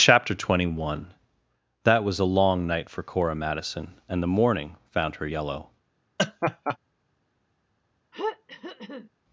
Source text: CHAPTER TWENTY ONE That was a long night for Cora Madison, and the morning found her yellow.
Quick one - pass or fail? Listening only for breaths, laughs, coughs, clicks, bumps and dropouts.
fail